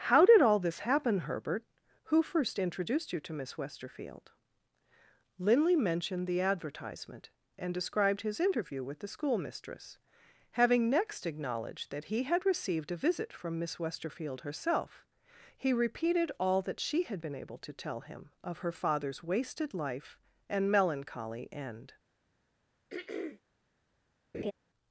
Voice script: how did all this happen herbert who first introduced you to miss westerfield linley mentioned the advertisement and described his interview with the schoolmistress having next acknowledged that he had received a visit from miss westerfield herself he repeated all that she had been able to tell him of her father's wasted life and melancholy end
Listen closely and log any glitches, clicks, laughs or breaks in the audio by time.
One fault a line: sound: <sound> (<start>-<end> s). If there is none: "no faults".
sound: throat clearing (22.9-23.4 s)
sound: laugh (24.3-24.5 s)